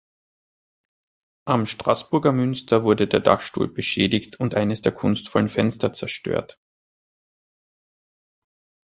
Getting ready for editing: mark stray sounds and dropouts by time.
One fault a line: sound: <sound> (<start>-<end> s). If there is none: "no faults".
no faults